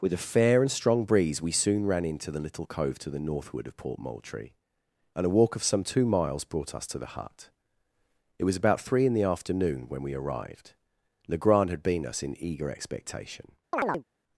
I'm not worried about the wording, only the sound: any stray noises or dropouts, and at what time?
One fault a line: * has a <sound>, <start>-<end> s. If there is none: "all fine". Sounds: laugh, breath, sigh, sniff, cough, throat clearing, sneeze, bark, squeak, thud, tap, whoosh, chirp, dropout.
* has a chirp, 13.7-14.0 s